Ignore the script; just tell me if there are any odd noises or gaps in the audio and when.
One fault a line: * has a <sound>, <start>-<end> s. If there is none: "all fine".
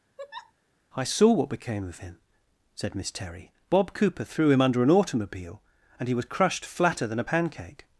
* has a laugh, 0.2-0.5 s